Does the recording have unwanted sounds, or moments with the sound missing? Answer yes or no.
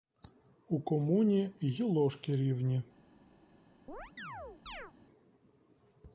yes